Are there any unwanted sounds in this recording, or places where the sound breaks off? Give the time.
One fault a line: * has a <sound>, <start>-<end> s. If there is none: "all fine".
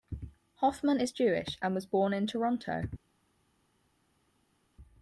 all fine